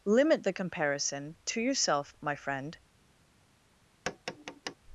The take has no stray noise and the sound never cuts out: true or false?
false